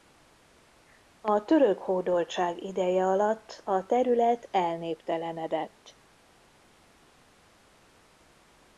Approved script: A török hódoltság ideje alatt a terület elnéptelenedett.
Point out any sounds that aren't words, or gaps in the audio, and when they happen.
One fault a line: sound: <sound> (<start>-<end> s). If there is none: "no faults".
no faults